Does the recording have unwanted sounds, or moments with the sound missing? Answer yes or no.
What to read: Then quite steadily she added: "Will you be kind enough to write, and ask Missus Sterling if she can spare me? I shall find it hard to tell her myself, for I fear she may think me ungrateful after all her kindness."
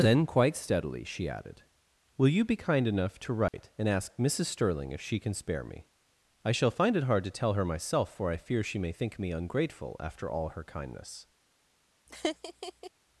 yes